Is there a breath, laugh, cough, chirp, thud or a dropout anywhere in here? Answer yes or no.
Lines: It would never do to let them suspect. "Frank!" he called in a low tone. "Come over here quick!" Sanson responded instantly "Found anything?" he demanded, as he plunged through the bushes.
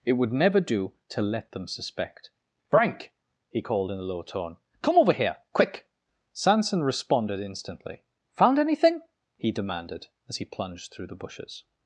no